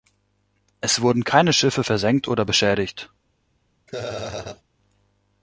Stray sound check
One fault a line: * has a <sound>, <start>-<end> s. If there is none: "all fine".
* has a laugh, 3.9-4.6 s